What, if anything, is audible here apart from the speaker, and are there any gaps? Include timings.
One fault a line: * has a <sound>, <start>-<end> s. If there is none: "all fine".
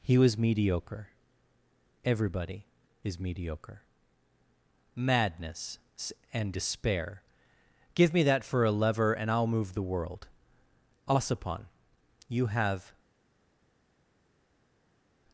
all fine